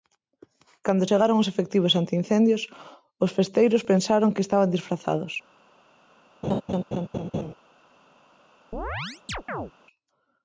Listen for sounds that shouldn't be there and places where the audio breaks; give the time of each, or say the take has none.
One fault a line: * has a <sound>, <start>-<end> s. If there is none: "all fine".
* has a laugh, 6.4-7.5 s
* has a chirp, 8.7-9.7 s